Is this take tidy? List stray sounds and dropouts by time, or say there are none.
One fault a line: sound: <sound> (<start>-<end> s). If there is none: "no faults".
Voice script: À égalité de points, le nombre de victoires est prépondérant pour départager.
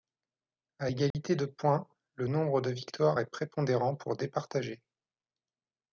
sound: dropout (1.1-1.1 s)